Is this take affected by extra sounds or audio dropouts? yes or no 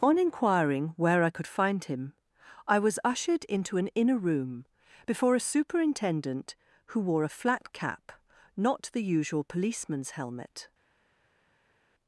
no